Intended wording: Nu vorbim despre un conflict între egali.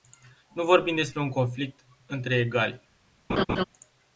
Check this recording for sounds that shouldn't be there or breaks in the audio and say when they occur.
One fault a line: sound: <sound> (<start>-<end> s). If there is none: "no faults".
sound: laugh (3.3-3.6 s)